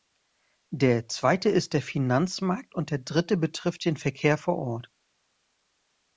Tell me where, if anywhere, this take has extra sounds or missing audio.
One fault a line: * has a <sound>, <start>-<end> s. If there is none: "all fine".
all fine